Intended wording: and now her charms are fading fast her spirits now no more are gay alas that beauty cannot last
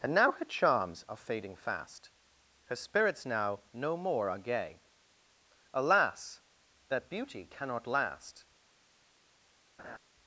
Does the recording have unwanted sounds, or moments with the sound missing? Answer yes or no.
yes